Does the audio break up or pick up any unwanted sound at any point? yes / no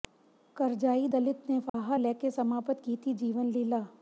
yes